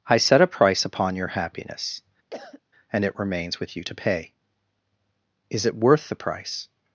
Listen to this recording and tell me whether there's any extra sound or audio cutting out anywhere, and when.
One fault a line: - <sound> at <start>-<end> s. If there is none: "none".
- cough at 2.3-2.6 s